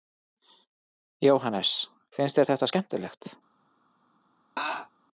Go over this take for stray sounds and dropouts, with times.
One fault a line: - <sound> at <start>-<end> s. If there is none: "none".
- laugh at 4.6-4.9 s